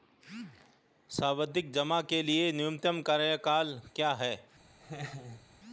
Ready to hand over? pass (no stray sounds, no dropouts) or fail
fail